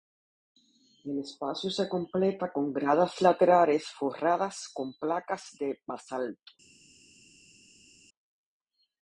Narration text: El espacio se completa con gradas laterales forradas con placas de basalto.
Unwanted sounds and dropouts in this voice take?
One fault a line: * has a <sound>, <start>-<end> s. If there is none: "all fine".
all fine